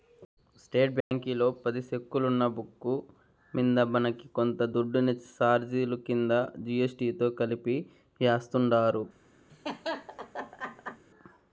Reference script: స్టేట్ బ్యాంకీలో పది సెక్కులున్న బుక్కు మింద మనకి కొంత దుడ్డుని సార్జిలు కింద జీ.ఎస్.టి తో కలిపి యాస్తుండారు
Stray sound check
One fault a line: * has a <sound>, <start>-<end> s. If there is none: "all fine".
* has a dropout, 1.0-1.1 s
* has a laugh, 9.5-11.0 s